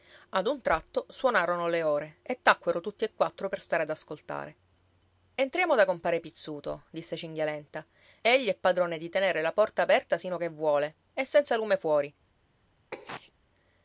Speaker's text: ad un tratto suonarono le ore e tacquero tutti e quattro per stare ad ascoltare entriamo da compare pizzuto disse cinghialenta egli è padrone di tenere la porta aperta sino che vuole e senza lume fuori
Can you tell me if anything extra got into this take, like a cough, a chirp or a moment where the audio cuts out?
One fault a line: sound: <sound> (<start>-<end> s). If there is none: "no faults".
sound: sneeze (12.9-13.3 s)